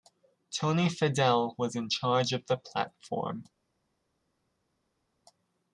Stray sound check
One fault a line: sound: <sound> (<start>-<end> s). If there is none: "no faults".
no faults